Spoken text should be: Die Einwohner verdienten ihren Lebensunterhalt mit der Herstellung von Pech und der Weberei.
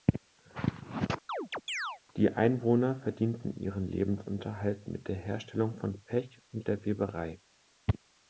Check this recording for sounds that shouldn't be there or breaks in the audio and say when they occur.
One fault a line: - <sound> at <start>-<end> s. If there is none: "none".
- chirp at 1.3-2.0 s